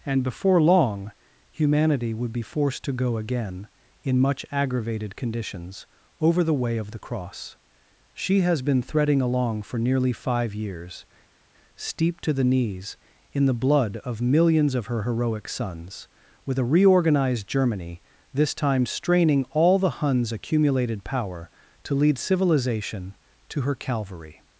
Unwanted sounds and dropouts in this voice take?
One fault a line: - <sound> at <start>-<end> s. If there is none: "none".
none